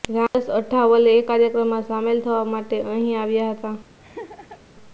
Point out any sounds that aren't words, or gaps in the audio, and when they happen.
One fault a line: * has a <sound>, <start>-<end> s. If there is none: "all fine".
* has a laugh, 4.0-4.6 s